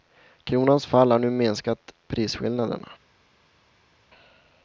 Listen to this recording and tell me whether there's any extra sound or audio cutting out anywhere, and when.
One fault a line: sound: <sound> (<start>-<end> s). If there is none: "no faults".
no faults